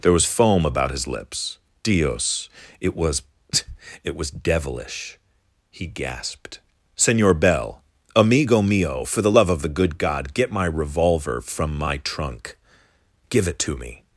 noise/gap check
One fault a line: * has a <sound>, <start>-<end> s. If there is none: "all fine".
all fine